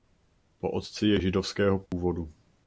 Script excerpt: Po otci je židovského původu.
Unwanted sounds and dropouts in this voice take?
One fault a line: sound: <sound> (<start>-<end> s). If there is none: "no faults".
sound: dropout (1.9-1.9 s)